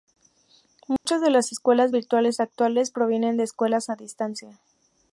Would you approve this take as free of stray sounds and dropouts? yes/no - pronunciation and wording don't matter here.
no